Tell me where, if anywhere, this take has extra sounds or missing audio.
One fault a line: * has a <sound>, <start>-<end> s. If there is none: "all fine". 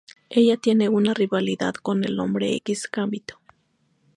all fine